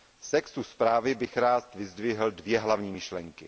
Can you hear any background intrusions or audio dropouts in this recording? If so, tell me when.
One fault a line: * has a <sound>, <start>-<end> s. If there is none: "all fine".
all fine